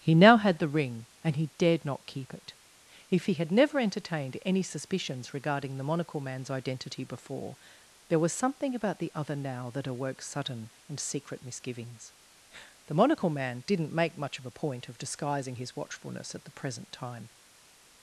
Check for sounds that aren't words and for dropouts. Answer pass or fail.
pass